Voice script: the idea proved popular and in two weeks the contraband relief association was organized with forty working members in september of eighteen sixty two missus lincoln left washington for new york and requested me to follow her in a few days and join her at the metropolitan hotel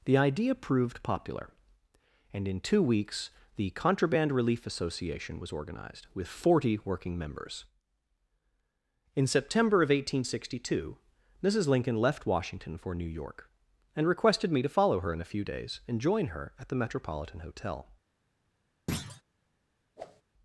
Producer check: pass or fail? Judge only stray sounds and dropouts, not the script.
fail